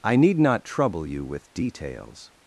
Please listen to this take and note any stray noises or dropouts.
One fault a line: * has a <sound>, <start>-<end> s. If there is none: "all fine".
all fine